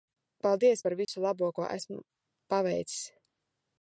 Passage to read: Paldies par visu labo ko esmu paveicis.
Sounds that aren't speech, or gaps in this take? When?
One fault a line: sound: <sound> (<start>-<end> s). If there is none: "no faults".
sound: dropout (1.0-1.1 s)